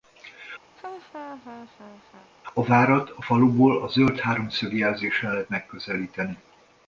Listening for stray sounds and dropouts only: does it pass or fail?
fail